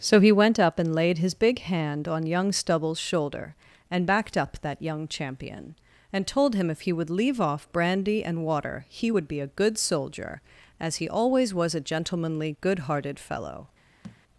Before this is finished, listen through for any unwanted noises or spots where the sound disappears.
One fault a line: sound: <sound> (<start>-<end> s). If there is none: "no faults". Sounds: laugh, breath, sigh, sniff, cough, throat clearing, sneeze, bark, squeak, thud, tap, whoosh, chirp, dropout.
sound: thud (14.0-14.2 s)